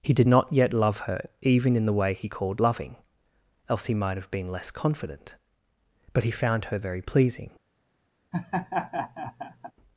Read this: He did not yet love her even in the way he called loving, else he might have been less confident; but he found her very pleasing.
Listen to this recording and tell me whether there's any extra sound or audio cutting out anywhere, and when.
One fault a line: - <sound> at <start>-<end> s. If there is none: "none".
- laugh at 8.3-9.7 s